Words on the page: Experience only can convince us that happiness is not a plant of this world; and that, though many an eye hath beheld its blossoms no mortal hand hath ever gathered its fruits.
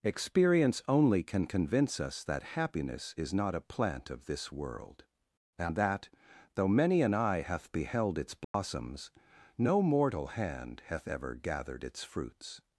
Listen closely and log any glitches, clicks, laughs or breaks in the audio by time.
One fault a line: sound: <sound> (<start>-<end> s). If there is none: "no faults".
sound: dropout (8.4-8.5 s)